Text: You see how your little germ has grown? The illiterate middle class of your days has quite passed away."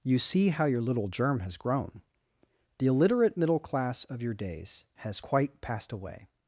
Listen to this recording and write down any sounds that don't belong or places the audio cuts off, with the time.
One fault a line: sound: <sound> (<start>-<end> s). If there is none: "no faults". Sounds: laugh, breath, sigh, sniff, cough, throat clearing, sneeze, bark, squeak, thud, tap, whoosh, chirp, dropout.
no faults